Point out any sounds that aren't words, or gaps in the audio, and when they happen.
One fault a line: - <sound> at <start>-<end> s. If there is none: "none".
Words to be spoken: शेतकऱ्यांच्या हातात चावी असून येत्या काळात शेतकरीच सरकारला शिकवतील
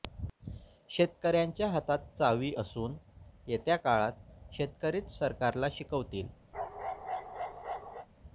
- bark at 6.5-8.1 s